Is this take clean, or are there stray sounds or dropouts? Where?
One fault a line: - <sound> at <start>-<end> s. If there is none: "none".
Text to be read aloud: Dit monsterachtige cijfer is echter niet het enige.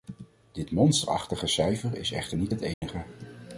- dropout at 2.7-2.8 s